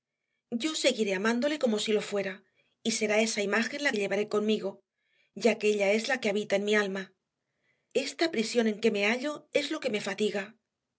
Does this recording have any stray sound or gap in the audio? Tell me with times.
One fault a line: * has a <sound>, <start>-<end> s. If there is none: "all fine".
all fine